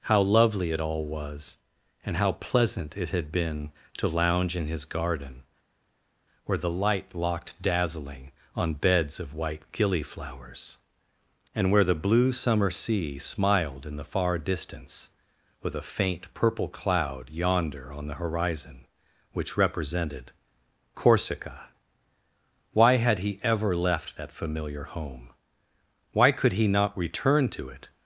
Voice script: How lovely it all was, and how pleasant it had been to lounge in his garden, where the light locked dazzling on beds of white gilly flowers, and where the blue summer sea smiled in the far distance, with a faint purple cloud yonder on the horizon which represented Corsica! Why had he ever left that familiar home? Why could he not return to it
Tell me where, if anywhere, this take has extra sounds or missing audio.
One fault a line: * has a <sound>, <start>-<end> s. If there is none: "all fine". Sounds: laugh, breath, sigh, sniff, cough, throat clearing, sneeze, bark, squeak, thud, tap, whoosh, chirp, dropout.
all fine